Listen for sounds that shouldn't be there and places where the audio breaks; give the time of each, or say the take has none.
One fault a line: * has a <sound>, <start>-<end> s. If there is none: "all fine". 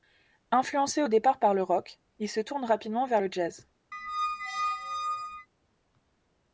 * has a squeak, 3.9-5.5 s